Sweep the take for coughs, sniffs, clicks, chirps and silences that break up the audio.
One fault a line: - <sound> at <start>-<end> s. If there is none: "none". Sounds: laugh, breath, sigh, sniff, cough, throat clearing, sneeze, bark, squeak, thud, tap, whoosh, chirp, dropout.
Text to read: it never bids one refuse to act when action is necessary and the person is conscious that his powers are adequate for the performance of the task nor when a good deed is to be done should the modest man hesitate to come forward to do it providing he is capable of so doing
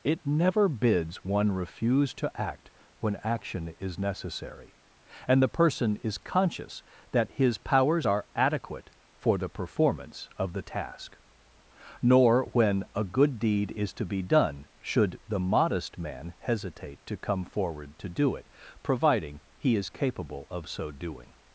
none